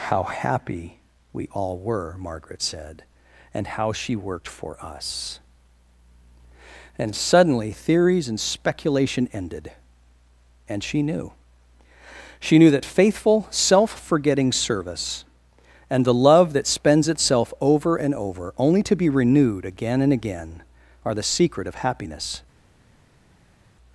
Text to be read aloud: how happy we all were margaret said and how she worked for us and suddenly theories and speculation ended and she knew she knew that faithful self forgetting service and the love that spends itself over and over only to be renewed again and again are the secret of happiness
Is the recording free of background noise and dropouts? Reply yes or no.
yes